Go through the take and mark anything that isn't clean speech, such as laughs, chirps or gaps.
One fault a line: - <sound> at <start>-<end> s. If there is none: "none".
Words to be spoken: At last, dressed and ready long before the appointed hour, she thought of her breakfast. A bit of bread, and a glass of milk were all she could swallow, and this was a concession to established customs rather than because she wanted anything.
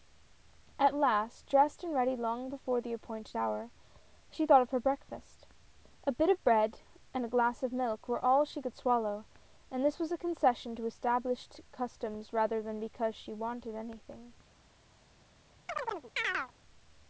- chirp at 15.7-16.5 s